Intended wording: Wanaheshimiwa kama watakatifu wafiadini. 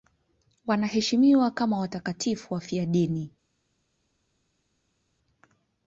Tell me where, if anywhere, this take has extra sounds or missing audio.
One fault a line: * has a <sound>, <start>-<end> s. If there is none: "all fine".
all fine